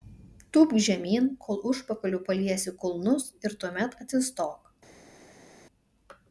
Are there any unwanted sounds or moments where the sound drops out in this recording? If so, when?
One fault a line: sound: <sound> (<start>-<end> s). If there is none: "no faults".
no faults